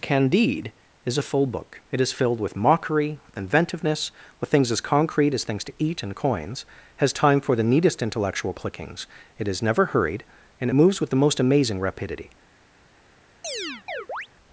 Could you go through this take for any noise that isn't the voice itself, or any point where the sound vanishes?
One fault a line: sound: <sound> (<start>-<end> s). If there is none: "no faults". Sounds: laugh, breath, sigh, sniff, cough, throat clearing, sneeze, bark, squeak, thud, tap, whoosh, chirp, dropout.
sound: chirp (13.4-14.3 s)